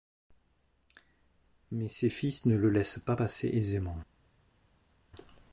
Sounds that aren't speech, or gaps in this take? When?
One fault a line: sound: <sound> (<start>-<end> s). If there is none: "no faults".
no faults